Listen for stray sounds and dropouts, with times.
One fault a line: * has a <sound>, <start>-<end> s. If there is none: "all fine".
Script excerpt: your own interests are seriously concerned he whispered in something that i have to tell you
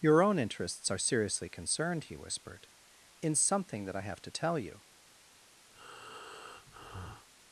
* has a breath, 5.7-7.3 s